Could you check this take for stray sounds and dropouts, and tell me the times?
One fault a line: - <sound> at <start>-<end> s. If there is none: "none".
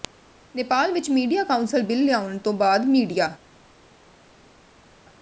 none